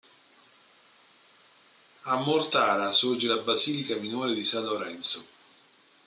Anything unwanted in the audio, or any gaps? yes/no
no